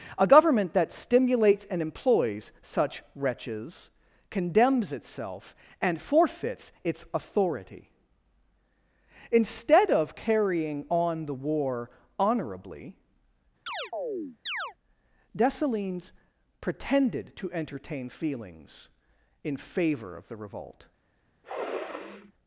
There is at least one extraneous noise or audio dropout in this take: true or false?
true